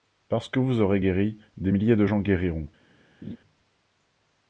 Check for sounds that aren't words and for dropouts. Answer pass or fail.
fail